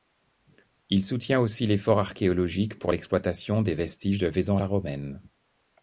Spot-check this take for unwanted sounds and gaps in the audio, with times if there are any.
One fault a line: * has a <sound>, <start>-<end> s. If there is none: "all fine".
all fine